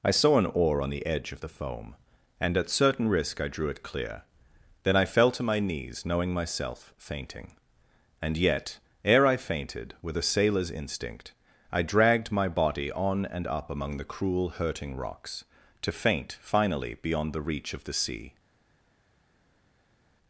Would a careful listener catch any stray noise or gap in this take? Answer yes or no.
no